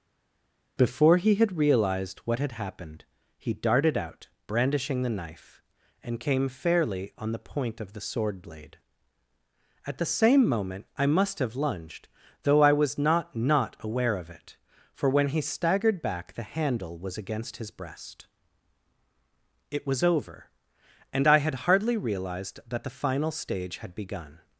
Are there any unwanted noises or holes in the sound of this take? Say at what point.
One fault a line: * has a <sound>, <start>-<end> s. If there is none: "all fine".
all fine